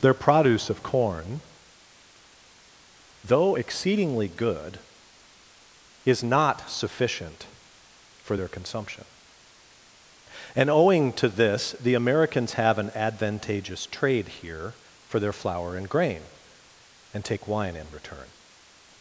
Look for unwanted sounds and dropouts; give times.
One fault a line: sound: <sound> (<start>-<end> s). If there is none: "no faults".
no faults